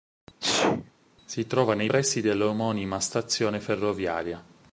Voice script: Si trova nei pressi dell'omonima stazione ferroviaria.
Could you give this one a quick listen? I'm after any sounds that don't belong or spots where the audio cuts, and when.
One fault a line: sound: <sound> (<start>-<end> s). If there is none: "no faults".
sound: sneeze (0.4-0.9 s)